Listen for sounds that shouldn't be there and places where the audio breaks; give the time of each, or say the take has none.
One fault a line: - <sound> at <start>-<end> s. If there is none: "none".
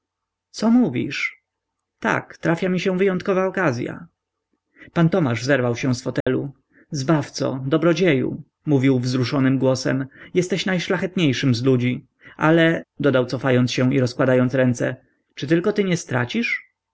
- dropout at 6.2-6.3 s